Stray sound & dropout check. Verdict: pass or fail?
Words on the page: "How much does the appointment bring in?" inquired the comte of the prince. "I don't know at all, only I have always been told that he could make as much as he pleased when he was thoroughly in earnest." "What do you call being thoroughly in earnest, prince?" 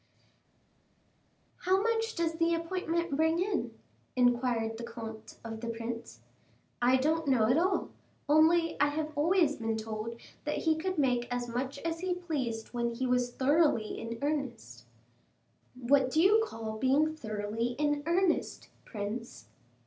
pass